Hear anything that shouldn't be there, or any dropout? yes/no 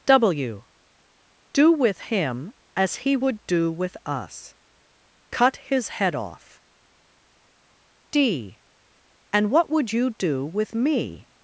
no